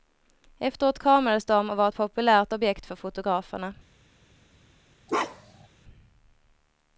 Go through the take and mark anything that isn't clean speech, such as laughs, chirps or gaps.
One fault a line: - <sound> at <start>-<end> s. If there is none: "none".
- bark at 5.1-5.7 s